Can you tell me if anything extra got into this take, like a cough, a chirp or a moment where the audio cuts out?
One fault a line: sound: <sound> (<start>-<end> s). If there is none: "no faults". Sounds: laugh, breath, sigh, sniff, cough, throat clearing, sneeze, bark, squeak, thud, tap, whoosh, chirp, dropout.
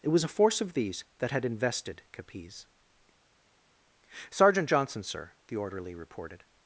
no faults